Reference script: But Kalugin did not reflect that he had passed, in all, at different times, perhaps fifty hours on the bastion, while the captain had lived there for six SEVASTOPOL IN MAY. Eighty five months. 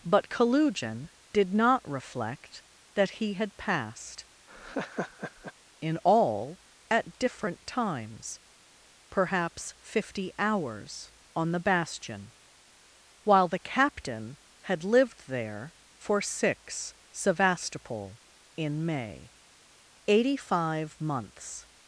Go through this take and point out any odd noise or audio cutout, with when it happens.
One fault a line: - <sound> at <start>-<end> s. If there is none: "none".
- laugh at 4.5-5.5 s